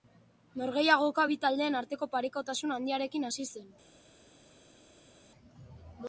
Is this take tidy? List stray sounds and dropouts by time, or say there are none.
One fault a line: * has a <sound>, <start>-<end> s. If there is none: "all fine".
all fine